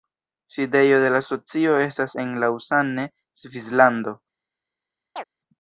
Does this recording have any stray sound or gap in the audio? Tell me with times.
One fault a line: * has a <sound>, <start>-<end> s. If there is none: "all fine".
* has a chirp, 5.2-5.2 s